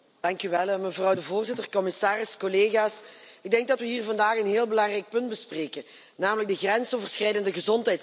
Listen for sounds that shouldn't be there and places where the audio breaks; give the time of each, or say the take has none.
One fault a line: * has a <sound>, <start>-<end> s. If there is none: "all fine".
all fine